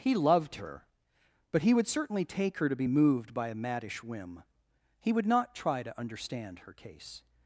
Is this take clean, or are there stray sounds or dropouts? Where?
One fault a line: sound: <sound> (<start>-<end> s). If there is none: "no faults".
no faults